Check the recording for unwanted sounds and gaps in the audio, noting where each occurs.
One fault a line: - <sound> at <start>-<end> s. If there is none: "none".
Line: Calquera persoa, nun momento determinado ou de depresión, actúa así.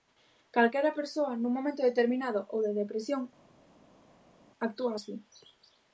none